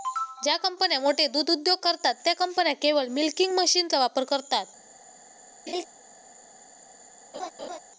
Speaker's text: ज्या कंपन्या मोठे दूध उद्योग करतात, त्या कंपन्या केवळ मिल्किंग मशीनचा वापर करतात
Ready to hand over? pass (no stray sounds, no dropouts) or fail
fail